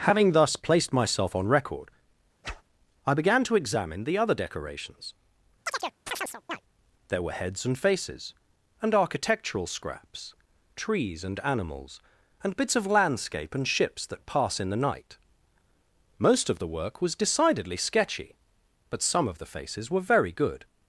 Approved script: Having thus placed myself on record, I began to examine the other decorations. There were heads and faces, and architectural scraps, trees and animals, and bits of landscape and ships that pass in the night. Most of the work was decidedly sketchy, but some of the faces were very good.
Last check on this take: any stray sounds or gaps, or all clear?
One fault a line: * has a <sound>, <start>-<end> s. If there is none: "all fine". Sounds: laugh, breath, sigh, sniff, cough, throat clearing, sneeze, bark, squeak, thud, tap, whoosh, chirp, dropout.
* has a whoosh, 2.4-2.6 s
* has a chirp, 5.7-6.6 s